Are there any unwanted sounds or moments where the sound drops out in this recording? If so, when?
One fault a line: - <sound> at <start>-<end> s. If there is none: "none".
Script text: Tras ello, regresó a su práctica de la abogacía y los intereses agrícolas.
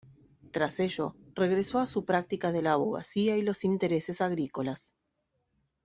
none